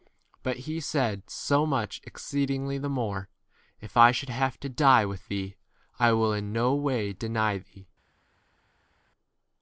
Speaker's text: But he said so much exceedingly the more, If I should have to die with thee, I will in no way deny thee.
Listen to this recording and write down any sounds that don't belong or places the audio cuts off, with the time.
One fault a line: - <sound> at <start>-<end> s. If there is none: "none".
none